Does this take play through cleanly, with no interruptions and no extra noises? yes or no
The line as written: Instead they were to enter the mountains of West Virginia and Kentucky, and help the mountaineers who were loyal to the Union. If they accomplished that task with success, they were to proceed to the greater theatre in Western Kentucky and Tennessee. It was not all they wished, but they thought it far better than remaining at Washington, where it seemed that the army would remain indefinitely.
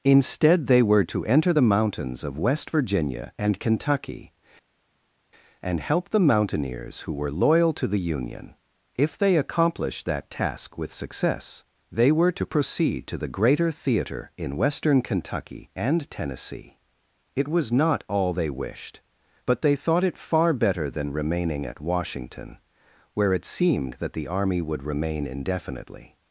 yes